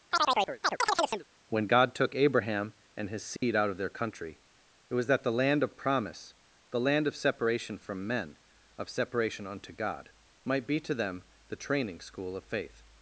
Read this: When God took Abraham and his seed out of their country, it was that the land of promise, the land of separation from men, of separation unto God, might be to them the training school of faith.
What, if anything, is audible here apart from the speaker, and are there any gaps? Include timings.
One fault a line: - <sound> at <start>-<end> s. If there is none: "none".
- chirp at 0.1-1.3 s
- dropout at 3.4-3.4 s